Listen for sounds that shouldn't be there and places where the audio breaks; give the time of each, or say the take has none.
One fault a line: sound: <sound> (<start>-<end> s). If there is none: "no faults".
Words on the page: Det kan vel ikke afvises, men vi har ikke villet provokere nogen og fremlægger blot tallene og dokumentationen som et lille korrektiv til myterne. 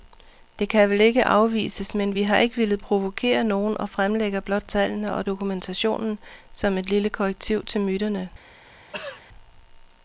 sound: throat clearing (8.9-9.2 s)